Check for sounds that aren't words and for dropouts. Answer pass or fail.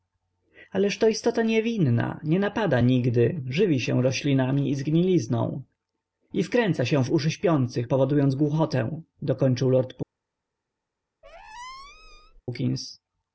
fail